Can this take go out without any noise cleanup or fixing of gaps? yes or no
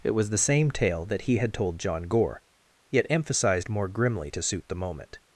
yes